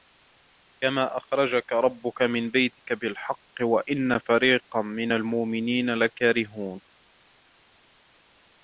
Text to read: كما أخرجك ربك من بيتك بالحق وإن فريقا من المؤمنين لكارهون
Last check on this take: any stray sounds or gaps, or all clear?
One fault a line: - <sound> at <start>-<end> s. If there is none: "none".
none